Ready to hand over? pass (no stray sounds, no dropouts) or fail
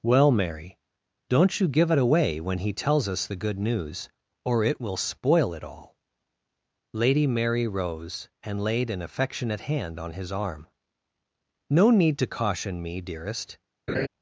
fail